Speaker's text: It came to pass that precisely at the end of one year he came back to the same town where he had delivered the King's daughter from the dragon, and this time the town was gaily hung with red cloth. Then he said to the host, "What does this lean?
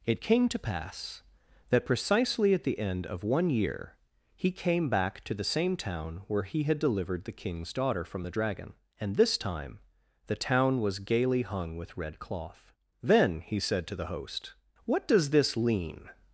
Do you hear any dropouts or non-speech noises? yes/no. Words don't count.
no